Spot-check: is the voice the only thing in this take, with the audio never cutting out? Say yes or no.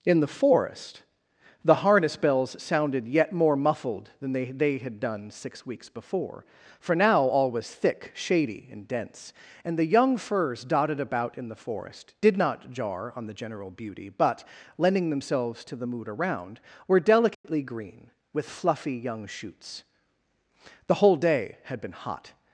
no